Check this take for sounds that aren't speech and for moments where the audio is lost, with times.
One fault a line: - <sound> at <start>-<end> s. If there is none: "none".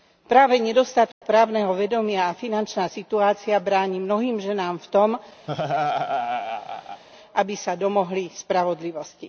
- dropout at 1.1-1.2 s
- laugh at 5.5-7.0 s